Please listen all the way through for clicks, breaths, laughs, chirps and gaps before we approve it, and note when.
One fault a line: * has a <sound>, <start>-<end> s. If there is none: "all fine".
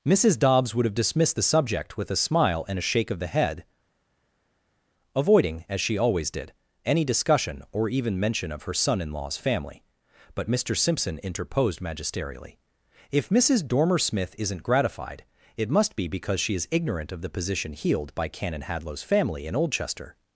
all fine